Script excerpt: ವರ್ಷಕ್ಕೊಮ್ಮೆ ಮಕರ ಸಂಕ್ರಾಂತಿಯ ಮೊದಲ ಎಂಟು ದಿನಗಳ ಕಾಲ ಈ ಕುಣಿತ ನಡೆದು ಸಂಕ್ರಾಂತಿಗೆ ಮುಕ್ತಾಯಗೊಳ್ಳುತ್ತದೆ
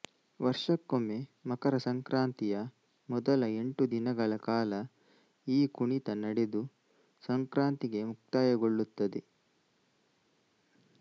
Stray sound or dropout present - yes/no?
no